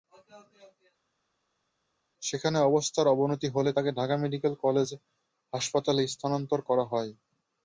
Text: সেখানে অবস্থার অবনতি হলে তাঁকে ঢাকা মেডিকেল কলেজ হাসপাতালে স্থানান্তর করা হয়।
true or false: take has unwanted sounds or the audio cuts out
false